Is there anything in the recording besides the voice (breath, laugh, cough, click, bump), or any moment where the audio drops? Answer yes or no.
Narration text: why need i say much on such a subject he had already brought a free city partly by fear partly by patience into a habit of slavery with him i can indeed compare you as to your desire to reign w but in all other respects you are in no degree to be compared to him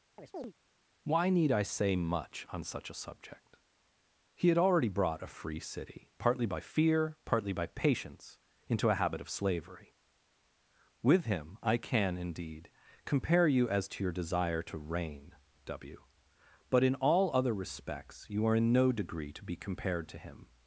yes